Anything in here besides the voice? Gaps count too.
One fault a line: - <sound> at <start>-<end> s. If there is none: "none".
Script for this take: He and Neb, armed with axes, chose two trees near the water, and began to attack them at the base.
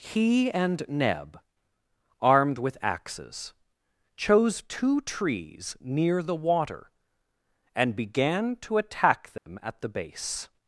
- dropout at 9.4-9.5 s